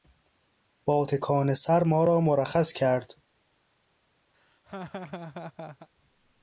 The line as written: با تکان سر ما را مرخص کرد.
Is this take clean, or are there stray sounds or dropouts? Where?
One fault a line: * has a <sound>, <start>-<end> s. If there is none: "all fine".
* has a laugh, 4.3-5.9 s